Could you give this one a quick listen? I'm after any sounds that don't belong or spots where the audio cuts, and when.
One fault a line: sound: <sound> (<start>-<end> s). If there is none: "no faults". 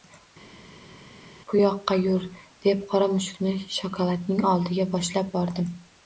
no faults